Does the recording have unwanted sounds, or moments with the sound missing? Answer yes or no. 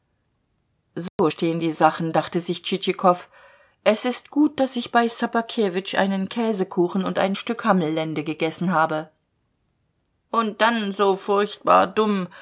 yes